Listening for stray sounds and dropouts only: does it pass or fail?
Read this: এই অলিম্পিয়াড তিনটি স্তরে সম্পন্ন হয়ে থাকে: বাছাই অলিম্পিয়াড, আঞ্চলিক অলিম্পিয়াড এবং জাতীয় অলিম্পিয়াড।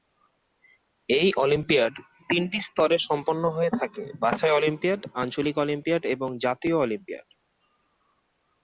pass